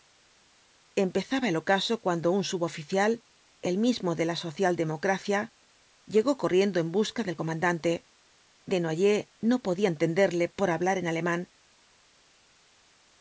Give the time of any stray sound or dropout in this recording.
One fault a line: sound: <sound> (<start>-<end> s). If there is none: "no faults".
no faults